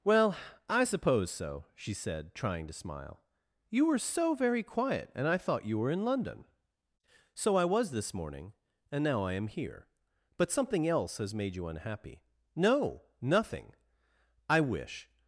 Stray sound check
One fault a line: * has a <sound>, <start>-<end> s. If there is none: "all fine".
all fine